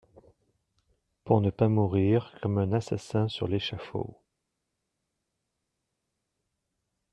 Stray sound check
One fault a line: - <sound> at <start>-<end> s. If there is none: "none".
none